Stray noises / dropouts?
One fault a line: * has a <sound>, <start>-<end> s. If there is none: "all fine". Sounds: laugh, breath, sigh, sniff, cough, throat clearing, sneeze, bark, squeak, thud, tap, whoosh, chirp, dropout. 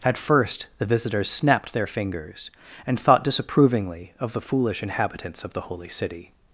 all fine